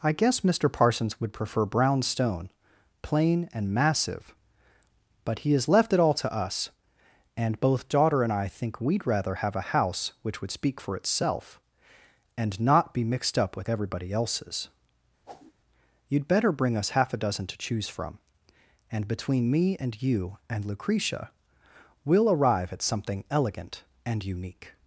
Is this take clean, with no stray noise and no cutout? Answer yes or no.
no